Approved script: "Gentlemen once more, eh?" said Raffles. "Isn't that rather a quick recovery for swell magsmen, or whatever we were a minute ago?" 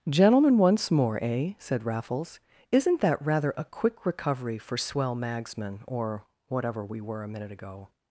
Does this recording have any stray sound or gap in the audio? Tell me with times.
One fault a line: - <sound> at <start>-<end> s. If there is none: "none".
none